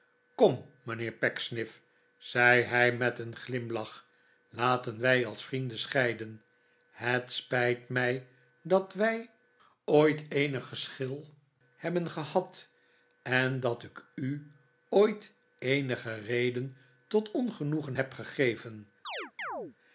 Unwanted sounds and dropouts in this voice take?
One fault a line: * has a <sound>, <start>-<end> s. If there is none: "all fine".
* has a chirp, 19.0-19.8 s